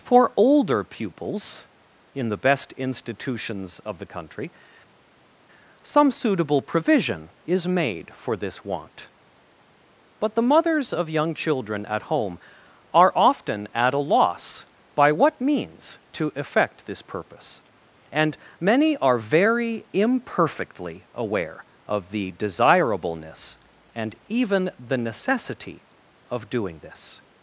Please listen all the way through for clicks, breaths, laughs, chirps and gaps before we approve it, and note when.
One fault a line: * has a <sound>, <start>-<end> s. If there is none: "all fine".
all fine